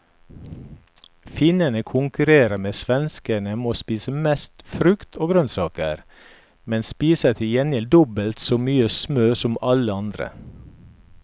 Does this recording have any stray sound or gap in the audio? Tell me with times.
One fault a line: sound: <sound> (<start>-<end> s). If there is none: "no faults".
no faults